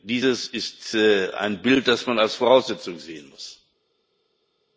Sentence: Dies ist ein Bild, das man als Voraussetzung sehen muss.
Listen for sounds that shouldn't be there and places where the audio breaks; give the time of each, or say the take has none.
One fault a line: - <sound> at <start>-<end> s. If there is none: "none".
none